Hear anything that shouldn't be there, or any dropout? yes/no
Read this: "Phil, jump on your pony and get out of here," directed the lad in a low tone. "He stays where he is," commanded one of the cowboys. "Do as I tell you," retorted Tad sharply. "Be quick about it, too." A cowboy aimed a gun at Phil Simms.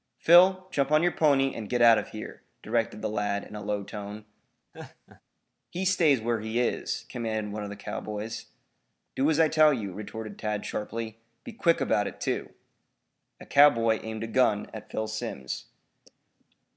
yes